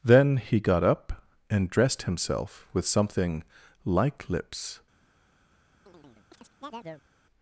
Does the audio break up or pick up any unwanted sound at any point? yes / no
yes